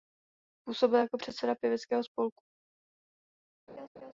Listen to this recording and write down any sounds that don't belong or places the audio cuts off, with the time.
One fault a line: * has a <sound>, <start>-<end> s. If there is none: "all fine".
* has a laugh, 3.7-4.1 s